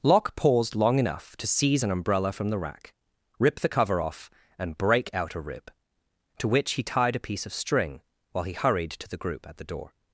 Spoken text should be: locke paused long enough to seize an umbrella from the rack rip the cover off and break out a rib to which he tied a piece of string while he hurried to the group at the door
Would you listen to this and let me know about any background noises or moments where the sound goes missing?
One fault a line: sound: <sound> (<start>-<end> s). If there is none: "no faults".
no faults